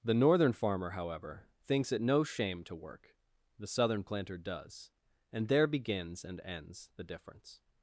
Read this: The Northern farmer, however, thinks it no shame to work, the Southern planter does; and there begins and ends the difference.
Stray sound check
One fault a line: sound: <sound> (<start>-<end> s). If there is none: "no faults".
no faults